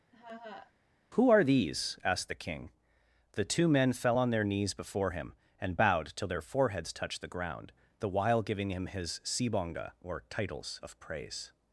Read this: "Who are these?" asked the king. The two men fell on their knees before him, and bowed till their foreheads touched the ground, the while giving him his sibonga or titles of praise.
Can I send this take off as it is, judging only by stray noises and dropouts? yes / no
no